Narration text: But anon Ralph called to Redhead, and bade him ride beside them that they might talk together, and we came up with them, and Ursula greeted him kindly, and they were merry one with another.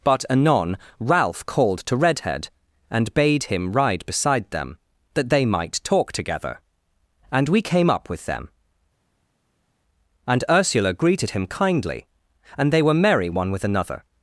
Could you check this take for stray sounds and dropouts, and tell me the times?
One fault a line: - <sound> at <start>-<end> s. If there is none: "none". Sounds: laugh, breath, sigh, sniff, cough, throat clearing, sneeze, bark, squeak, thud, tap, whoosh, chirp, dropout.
none